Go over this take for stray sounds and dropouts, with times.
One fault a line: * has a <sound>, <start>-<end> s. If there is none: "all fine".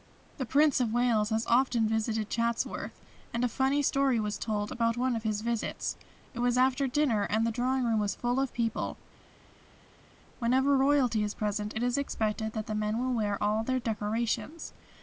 all fine